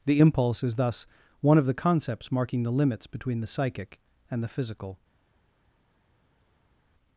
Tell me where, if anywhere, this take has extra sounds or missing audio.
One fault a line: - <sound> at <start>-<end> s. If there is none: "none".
none